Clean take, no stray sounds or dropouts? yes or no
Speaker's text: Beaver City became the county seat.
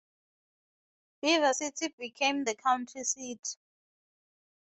yes